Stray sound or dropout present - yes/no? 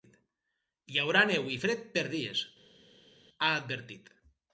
no